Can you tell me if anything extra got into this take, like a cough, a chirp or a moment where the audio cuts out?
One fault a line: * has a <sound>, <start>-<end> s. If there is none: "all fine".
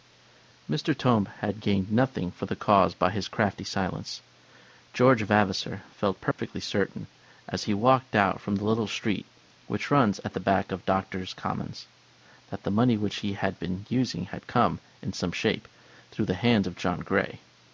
* has a dropout, 6.3-6.4 s